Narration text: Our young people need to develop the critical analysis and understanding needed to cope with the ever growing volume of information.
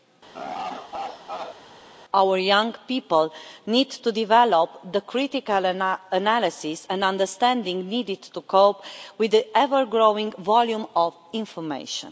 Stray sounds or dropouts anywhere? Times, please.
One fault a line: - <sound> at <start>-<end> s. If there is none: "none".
- laugh at 0.3-1.6 s